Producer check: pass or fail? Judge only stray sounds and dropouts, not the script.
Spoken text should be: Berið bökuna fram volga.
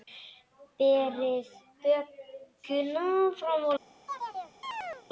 fail